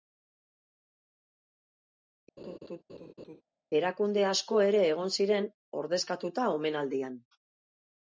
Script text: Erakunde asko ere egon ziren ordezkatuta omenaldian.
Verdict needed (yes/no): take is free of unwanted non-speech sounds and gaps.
no